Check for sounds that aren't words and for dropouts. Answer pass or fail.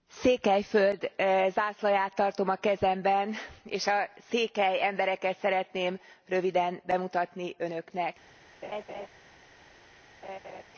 fail